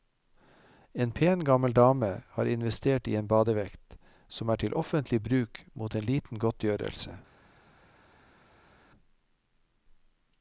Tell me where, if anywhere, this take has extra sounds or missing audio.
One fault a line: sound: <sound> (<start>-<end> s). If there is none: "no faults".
no faults